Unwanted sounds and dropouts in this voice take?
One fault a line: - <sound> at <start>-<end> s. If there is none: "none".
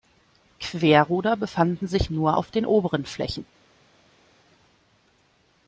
none